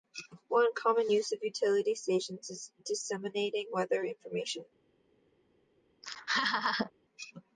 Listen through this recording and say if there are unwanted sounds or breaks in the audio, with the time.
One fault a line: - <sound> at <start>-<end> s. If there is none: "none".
- laugh at 6.0-6.9 s